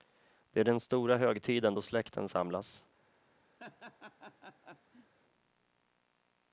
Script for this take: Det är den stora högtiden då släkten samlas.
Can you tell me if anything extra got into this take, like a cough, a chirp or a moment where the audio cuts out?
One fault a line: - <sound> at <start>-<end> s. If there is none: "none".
- laugh at 3.6-5.1 s